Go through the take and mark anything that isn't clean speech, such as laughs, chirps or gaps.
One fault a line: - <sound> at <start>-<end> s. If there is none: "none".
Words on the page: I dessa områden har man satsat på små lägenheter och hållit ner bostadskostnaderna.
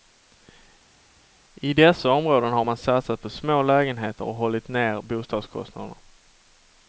none